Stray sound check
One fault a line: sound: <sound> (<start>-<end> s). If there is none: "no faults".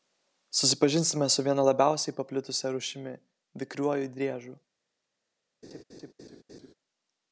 sound: laugh (5.6-6.7 s)